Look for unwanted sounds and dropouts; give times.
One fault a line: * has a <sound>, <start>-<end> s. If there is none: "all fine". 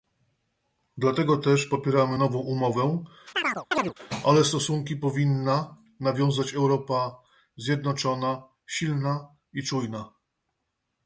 * has a chirp, 3.3-3.9 s